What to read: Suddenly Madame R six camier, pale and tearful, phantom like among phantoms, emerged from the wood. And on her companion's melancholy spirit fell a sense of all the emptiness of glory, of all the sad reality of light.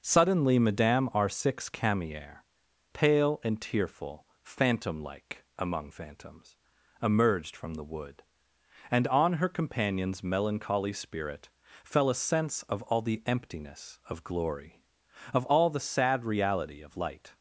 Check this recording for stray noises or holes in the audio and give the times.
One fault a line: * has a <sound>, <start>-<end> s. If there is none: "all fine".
all fine